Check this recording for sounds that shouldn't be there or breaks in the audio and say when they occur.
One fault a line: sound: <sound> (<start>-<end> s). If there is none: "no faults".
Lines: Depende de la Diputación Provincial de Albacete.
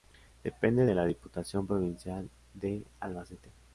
no faults